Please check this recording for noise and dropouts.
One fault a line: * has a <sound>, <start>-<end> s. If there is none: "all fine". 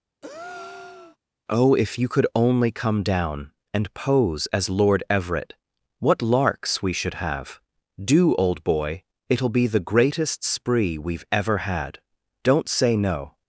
* has a breath, 0.2-1.2 s